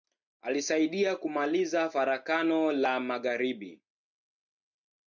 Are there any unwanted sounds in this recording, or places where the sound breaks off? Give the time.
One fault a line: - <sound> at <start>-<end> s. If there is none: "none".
none